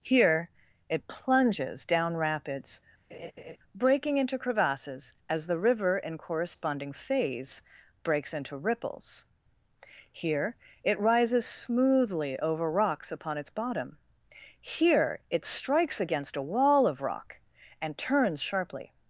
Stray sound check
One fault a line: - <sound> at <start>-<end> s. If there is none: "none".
- laugh at 3.1-3.6 s